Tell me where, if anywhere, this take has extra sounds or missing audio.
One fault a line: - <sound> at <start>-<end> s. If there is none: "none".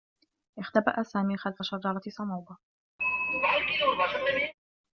- throat clearing at 3.0-4.5 s